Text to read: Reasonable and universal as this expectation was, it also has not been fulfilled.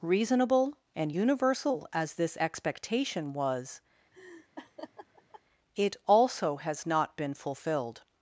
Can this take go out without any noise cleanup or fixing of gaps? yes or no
no